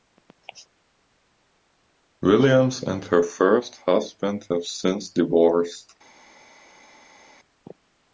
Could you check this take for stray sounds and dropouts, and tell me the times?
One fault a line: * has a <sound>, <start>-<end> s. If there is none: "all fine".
all fine